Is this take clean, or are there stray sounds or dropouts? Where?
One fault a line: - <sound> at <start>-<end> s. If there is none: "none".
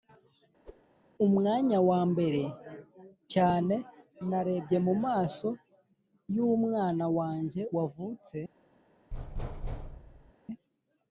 - whoosh at 0.7-0.8 s
- thud at 9.1-10.3 s